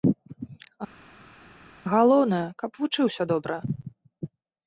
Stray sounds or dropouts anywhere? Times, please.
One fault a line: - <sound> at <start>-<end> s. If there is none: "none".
none